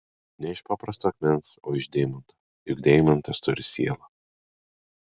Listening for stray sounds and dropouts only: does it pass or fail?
pass